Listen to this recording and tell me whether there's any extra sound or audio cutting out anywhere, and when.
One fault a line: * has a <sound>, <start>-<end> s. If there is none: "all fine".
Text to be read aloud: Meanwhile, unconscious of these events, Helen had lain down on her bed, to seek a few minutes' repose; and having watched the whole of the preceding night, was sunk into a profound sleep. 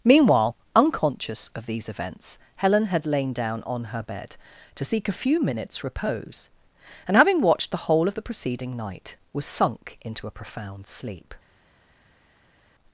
all fine